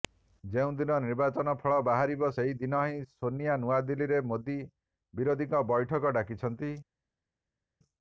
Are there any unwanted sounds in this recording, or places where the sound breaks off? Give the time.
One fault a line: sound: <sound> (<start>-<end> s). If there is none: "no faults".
no faults